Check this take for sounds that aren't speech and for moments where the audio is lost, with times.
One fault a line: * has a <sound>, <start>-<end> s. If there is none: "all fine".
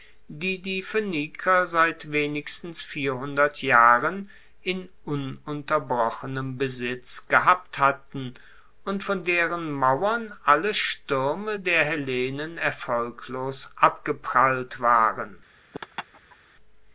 * has a laugh, 15.7-16.4 s